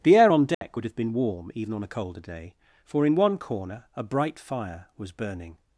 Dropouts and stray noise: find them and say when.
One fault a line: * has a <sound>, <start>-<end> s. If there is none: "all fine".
* has a dropout, 0.5-0.6 s